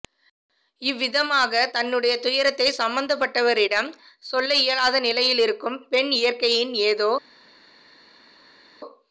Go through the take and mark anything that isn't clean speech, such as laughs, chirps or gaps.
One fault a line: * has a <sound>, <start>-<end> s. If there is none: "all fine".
all fine